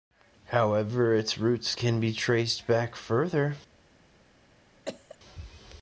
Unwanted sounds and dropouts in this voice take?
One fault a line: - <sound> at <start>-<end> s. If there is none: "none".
- cough at 4.9-5.2 s